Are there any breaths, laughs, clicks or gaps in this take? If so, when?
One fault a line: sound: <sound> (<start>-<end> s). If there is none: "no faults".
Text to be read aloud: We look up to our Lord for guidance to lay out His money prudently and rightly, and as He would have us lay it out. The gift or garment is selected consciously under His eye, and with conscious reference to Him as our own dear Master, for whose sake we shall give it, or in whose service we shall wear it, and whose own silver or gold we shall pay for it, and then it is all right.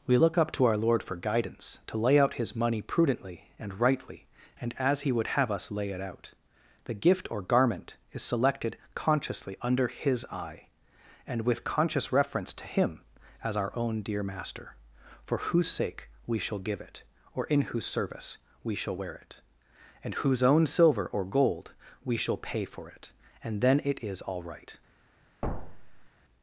sound: thud (25.4-26.1 s)